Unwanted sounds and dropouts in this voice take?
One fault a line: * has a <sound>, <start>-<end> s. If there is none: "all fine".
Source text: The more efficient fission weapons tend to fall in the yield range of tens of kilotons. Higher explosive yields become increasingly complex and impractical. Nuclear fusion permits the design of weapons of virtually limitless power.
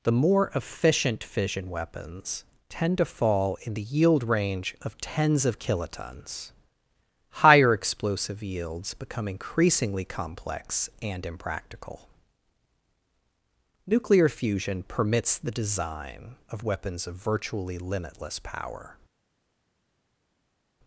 all fine